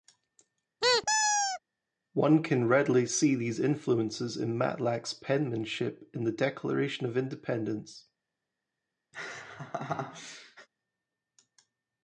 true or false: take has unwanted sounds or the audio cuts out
true